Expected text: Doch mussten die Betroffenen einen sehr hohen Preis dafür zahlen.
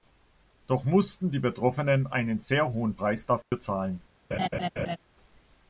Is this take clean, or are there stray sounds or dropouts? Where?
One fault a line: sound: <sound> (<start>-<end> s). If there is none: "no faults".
sound: dropout (3.4-3.5 s)
sound: laugh (4.3-5.0 s)